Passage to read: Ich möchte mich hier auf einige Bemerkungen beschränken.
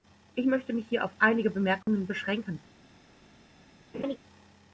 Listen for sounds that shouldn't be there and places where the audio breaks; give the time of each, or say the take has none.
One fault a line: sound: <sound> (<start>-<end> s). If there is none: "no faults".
sound: dropout (1.8-1.9 s)
sound: laugh (3.9-4.2 s)